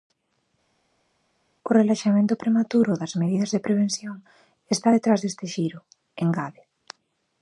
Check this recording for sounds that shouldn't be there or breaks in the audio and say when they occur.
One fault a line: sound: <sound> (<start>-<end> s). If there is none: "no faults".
no faults